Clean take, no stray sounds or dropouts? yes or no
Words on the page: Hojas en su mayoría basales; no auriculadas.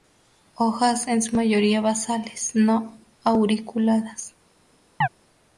no